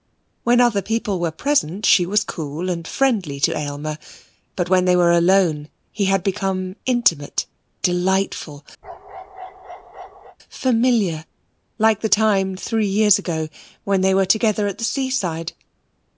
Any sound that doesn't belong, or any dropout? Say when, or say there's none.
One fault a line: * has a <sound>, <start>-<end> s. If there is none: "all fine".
* has a bark, 8.8-10.4 s